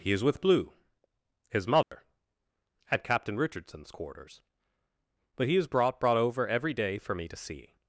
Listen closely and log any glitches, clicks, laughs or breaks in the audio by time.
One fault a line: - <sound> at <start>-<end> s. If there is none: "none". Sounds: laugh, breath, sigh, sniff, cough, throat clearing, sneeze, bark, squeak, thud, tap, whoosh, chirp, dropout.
- dropout at 1.8-1.9 s